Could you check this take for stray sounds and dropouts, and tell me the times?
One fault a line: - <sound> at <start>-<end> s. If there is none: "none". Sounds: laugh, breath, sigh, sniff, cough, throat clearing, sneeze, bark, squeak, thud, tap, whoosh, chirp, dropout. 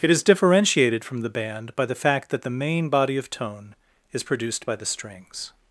none